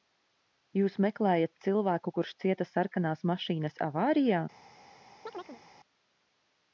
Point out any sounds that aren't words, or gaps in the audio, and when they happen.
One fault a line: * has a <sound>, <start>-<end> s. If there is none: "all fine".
* has a chirp, 5.3-5.6 s